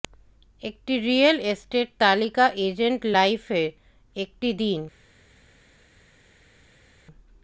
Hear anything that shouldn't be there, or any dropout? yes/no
no